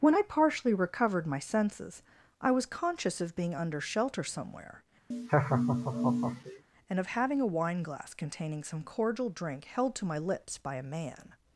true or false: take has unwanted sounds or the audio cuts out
true